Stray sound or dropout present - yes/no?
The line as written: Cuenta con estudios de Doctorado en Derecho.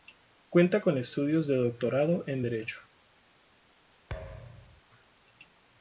yes